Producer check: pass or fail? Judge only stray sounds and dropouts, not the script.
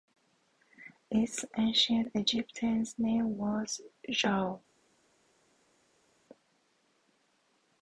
pass